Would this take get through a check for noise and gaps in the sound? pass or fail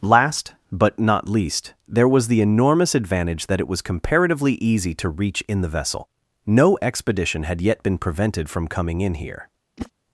fail